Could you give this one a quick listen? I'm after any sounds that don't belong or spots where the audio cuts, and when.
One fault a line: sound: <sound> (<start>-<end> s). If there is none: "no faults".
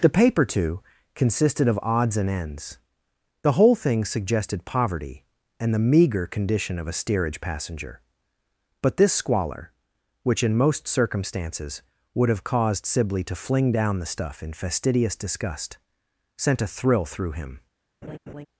sound: laugh (18.0-18.5 s)